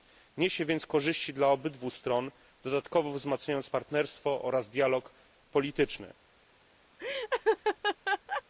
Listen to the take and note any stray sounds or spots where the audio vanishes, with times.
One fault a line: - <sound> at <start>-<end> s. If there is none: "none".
- laugh at 7.0-8.4 s